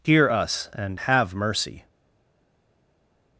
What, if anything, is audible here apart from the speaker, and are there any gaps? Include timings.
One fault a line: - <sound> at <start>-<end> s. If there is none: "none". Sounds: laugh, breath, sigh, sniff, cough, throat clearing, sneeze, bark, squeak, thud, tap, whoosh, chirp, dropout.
none